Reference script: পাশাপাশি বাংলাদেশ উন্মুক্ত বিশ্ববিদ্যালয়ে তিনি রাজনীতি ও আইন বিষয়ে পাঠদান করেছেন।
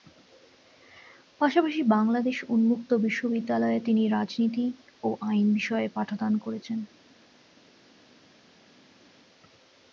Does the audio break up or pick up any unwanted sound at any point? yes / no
no